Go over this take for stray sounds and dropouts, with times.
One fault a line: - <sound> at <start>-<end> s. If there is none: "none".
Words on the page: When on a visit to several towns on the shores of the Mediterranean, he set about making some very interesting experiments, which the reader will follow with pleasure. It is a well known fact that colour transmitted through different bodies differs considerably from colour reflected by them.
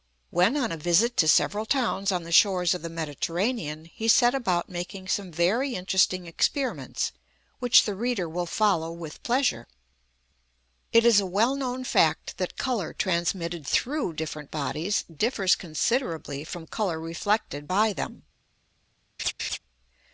- laugh at 19.2-19.6 s